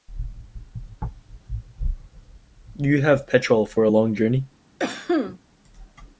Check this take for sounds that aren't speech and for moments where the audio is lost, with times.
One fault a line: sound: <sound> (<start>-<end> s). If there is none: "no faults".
sound: cough (4.8-5.4 s)